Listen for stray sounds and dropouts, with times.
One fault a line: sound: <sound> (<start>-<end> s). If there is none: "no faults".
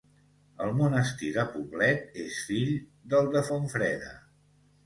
no faults